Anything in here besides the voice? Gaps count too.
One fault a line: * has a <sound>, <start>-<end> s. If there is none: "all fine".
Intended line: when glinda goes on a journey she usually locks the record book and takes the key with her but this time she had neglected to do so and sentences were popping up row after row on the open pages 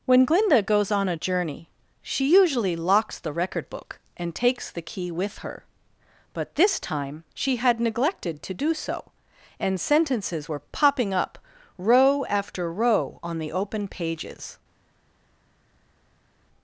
all fine